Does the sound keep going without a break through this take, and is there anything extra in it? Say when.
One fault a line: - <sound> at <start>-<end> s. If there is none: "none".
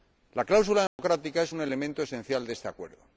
- dropout at 0.9-1.0 s